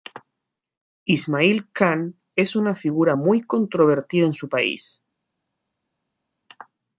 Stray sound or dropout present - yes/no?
no